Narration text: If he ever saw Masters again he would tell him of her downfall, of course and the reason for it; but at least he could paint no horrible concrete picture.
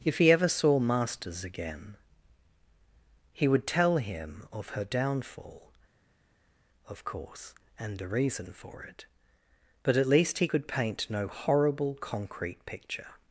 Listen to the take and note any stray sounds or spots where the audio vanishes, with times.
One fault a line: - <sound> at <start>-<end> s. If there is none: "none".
none